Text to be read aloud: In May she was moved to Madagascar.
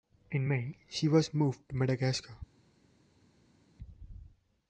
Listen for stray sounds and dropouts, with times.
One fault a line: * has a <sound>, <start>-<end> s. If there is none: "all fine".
all fine